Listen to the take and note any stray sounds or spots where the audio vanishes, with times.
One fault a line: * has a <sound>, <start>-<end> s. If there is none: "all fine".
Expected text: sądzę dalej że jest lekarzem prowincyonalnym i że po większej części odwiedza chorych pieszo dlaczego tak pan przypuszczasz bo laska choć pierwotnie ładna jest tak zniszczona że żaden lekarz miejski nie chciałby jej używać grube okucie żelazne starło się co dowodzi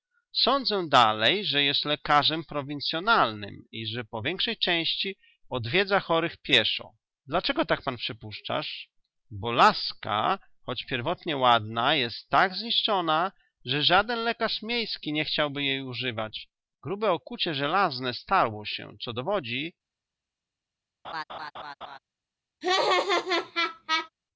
* has a laugh, 21.0-22.0 s
* has a laugh, 22.6-24.1 s